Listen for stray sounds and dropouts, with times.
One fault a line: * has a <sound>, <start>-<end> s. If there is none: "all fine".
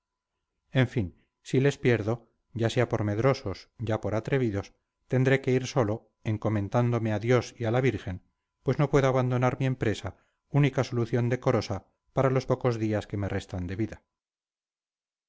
all fine